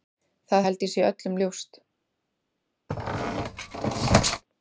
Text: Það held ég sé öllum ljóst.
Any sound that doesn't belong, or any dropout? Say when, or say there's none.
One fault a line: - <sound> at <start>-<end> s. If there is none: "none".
- squeak at 2.9-4.4 s